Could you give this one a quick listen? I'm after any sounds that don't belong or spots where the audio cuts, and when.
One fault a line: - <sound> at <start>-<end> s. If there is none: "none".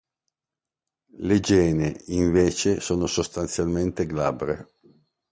none